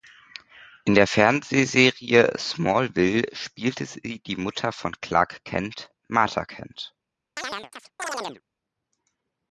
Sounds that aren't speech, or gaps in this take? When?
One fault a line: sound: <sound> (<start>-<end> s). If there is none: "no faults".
sound: chirp (7.4-8.4 s)